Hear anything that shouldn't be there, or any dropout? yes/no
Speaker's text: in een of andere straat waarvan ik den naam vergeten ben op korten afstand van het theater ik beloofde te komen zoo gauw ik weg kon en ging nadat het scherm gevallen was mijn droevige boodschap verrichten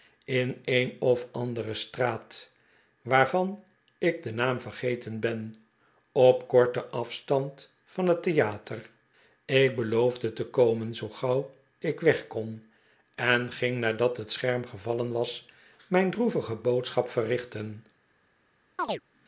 yes